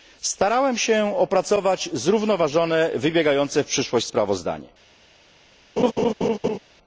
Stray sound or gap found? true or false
true